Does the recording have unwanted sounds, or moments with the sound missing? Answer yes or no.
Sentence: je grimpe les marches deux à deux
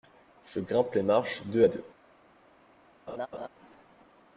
yes